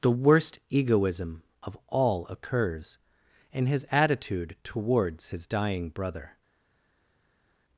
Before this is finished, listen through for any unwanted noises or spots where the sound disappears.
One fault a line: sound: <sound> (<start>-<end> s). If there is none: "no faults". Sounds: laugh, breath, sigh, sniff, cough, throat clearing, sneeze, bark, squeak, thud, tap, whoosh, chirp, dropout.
no faults